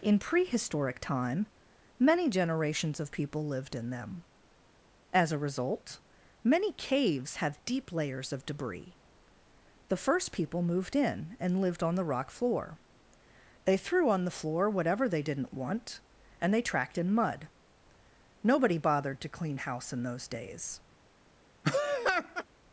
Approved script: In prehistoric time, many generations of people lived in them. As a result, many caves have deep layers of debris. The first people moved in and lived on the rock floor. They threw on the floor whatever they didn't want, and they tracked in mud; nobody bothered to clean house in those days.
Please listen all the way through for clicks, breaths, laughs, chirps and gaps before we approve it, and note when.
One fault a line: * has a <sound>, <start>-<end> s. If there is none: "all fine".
* has a laugh, 21.6-22.4 s